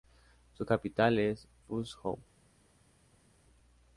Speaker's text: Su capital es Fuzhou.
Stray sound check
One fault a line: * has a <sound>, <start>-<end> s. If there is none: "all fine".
all fine